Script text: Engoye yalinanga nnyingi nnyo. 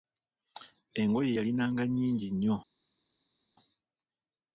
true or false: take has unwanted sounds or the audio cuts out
false